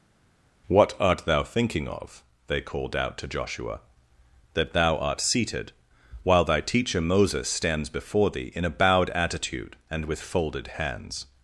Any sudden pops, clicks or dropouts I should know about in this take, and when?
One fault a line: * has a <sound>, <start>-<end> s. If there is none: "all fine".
all fine